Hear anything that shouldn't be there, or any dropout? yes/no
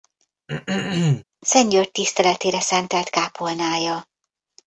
yes